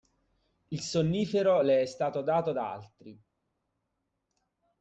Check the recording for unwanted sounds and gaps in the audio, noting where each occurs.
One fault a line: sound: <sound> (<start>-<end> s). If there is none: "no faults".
no faults